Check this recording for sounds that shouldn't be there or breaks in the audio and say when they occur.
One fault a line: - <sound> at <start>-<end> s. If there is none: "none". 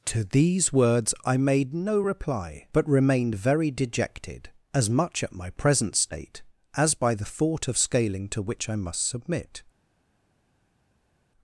none